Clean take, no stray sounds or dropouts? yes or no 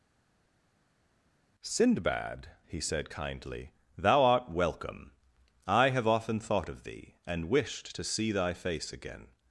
yes